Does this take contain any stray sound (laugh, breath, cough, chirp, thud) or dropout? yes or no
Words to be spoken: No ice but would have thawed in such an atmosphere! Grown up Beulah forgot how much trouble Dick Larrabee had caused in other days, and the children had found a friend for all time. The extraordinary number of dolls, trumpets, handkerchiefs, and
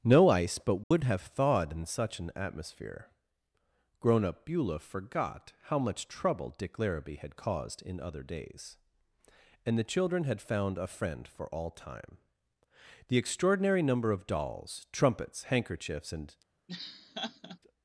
yes